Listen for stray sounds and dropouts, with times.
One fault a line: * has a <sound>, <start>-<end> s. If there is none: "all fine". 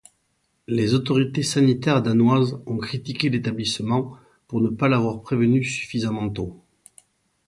all fine